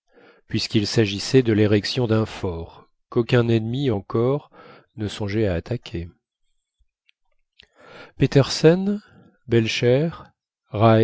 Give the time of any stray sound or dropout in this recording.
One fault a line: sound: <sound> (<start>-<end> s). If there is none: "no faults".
no faults